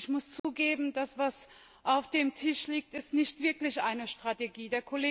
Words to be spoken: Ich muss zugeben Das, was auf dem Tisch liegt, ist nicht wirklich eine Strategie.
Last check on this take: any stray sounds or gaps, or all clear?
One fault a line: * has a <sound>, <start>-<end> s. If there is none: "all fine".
* has a dropout, 0.4-0.4 s